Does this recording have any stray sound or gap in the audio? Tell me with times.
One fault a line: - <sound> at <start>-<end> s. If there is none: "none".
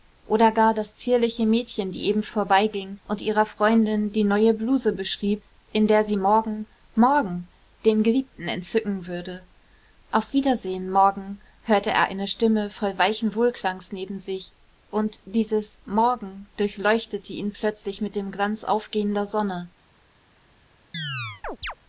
- chirp at 20.9-21.7 s